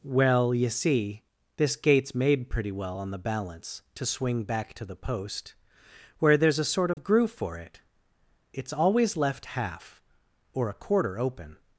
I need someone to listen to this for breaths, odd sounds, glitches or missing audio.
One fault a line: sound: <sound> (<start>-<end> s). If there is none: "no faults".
sound: dropout (6.9-7.0 s)